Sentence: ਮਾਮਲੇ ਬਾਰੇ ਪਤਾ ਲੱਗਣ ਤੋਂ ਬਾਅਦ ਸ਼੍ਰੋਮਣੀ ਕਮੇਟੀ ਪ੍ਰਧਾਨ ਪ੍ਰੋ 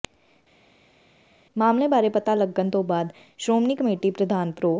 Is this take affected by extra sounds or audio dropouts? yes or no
no